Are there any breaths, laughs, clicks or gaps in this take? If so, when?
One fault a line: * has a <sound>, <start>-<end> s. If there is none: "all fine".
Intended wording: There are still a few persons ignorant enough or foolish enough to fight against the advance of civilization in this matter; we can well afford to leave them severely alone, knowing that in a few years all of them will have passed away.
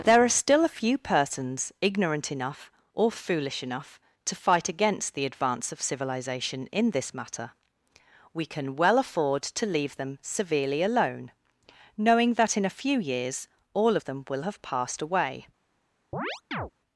* has a chirp, 16.1-16.7 s